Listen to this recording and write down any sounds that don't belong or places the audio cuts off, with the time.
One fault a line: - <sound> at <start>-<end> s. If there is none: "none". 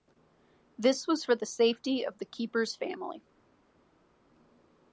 none